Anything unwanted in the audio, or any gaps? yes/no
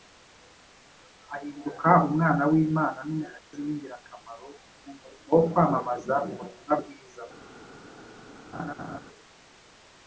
yes